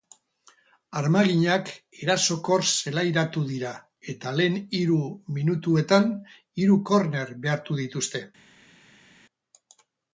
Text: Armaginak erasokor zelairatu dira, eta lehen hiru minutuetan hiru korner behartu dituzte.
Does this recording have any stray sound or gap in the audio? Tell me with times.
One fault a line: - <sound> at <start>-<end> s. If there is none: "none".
none